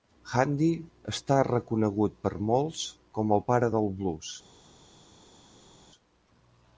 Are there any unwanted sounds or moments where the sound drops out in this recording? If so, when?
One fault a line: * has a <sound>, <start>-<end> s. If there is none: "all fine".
all fine